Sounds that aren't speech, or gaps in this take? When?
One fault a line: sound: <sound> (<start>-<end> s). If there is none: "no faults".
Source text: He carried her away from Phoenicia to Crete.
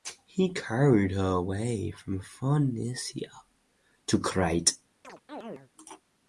sound: chirp (5.0-5.7 s)